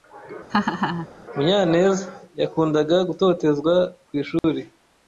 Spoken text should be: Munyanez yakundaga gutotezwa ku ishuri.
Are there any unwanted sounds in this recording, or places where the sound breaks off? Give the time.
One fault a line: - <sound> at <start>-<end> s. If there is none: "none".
- laugh at 0.5-1.1 s
- dropout at 4.4-4.4 s